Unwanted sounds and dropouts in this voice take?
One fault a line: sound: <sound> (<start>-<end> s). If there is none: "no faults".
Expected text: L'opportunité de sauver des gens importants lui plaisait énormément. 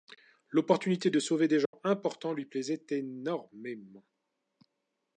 sound: dropout (1.7-1.7 s)